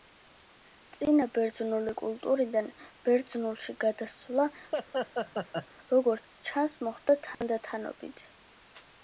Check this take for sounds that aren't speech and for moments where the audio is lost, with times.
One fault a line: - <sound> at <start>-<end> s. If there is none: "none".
- laugh at 4.7-5.7 s
- dropout at 7.3-7.4 s